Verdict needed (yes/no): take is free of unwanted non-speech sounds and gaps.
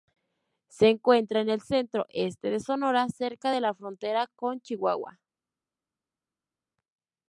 yes